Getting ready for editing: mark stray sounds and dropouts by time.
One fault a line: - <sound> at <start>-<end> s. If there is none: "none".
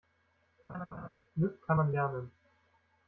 - laugh at 0.7-1.1 s